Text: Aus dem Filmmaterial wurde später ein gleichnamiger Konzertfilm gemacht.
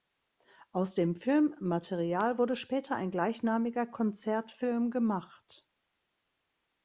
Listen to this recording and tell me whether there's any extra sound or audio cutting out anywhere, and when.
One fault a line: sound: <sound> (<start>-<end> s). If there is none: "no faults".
no faults